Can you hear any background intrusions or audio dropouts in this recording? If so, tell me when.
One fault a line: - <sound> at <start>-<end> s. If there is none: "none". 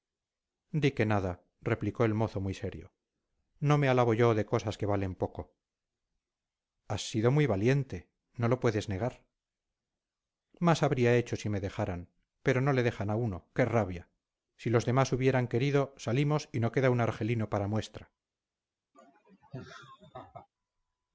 - laugh at 18.9-20.5 s